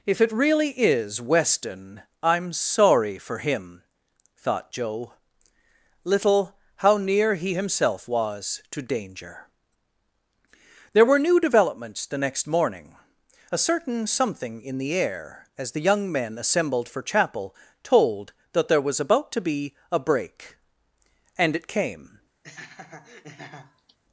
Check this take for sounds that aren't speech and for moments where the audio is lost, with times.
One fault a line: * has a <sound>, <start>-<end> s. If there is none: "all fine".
* has a laugh, 22.4-24.0 s